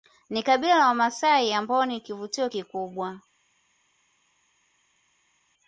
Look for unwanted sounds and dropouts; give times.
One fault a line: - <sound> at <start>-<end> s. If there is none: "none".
none